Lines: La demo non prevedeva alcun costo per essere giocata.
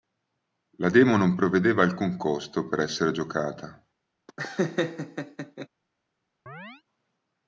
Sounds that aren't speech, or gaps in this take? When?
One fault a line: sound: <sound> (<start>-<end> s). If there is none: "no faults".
sound: laugh (4.3-5.7 s)
sound: chirp (6.5-6.8 s)